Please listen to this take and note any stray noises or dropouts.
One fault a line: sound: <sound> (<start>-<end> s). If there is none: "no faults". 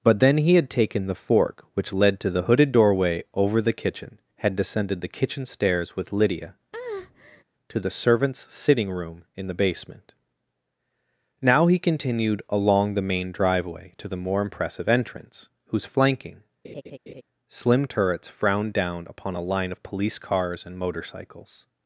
sound: breath (6.7-7.4 s)
sound: laugh (16.6-17.2 s)